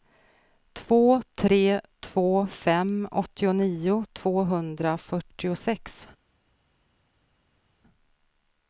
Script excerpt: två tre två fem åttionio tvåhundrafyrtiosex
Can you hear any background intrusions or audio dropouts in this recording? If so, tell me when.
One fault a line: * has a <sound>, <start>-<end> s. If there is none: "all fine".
all fine